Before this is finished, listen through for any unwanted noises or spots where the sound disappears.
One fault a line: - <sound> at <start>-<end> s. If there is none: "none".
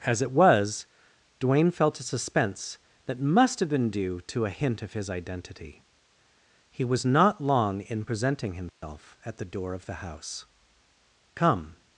- dropout at 8.7-8.8 s